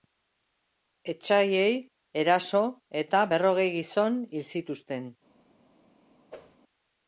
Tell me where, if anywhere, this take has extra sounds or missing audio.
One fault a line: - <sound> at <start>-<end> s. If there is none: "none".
- whoosh at 6.3-6.6 s